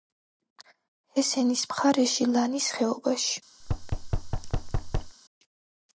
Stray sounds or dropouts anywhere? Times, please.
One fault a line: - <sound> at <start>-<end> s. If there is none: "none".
- thud at 3.6-5.2 s